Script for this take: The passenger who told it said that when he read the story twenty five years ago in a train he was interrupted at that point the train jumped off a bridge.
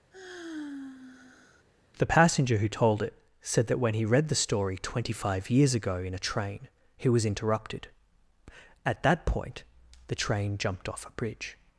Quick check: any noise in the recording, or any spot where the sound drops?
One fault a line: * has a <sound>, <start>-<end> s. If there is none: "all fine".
* has a sigh, 0.1-1.6 s